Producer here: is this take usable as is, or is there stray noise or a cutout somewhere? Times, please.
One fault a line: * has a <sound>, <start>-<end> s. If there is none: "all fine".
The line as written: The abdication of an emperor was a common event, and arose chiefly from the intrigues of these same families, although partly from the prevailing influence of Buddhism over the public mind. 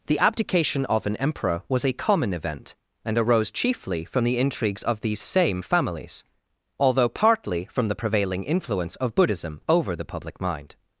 all fine